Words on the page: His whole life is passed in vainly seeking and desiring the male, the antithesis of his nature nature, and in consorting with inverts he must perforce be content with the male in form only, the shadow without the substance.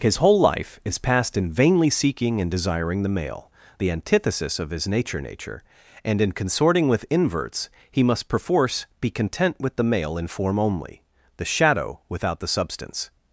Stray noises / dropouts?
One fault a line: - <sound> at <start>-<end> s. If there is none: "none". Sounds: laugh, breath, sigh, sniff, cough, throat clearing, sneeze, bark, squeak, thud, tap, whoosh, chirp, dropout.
none